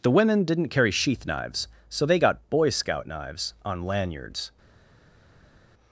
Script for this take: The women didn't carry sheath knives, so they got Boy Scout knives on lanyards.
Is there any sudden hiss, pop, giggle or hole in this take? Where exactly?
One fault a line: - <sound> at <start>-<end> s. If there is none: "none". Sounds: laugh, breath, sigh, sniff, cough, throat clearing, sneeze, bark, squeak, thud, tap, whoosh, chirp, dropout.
none